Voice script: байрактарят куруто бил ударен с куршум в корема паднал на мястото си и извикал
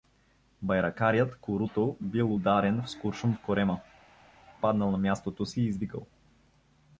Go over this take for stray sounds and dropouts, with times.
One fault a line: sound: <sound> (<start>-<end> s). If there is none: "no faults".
no faults